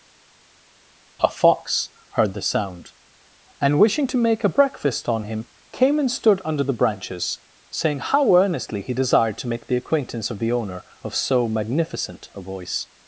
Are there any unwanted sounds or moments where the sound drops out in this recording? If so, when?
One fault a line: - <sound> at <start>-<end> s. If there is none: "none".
none